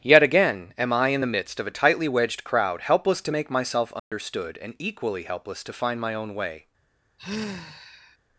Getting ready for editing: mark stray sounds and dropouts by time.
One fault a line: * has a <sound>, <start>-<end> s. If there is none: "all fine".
* has a dropout, 4.0-4.1 s
* has a sigh, 7.2-8.2 s